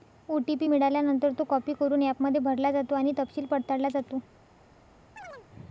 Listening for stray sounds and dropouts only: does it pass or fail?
fail